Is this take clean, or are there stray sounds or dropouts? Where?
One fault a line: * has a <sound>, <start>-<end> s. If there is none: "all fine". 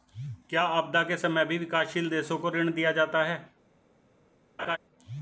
* has a laugh, 4.6-4.8 s